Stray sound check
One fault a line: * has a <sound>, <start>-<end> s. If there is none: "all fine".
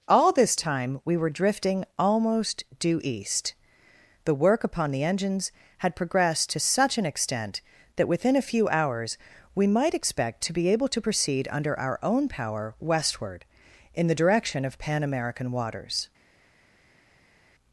all fine